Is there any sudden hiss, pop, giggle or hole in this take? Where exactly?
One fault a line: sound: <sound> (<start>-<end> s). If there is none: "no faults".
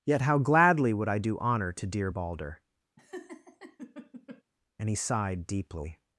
sound: laugh (3.0-4.4 s)